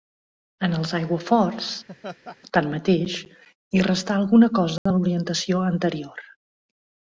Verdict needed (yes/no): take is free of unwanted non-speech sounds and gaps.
no